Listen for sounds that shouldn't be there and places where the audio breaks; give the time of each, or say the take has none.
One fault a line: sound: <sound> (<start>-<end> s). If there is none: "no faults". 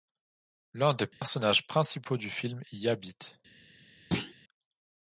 sound: dropout (1.1-1.2 s)
sound: thud (4.1-4.3 s)